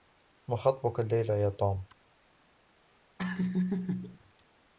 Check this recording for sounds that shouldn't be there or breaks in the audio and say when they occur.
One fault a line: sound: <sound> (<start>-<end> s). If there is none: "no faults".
sound: laugh (3.2-4.2 s)